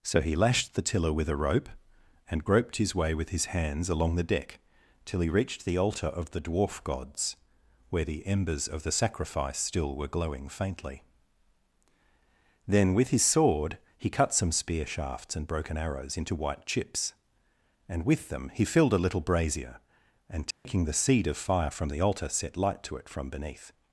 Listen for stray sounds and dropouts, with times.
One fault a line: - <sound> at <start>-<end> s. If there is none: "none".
- dropout at 20.5-20.7 s